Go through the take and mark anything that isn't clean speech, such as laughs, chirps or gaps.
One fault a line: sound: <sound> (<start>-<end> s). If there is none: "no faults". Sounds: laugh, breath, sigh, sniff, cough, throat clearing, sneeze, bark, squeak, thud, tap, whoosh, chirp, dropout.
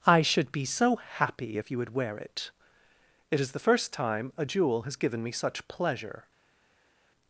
no faults